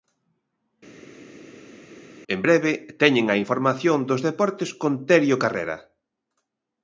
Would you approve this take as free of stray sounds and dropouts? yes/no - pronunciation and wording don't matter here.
yes